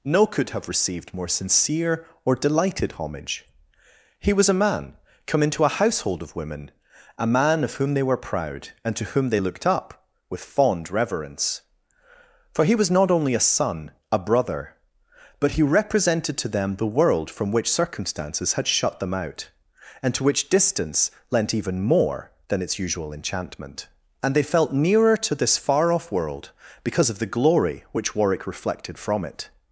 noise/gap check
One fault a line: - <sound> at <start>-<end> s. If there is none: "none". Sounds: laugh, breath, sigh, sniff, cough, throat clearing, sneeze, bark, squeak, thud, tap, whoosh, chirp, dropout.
none